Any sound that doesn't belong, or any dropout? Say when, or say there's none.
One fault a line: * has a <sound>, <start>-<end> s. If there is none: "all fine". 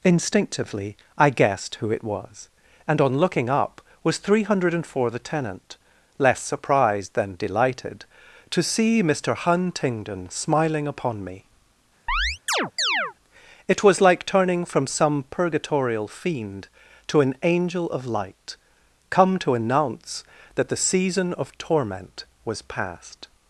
* has a chirp, 12.1-13.1 s